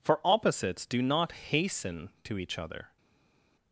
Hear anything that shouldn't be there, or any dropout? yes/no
no